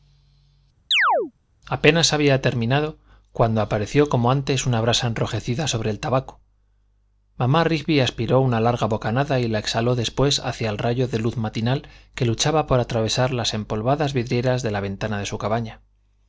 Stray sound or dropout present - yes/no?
yes